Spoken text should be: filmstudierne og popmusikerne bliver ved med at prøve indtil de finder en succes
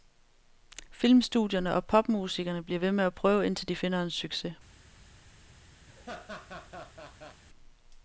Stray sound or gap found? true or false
true